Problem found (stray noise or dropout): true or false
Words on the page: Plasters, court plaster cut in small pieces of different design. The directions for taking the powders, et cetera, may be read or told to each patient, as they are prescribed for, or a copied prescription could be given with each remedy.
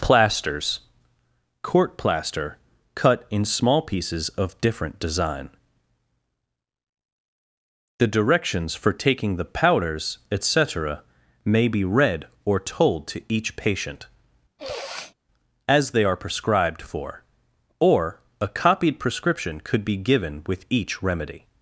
true